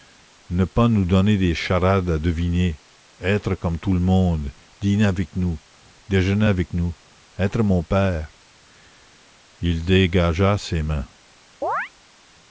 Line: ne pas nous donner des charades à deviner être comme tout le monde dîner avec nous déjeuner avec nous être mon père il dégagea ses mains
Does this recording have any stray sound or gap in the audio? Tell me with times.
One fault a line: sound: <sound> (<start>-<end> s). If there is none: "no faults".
sound: chirp (11.6-11.9 s)